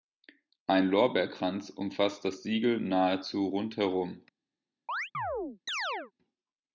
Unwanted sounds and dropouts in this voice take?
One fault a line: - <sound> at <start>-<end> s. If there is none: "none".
- chirp at 4.9-6.1 s